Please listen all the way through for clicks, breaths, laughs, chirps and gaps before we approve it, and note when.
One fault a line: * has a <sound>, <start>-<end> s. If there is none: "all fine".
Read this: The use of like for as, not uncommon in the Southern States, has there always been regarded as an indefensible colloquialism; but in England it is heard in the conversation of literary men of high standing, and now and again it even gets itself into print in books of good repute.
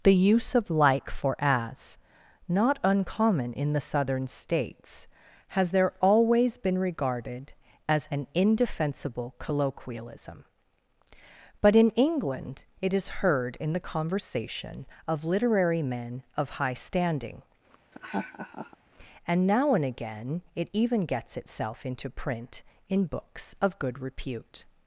* has a laugh, 17.9-18.8 s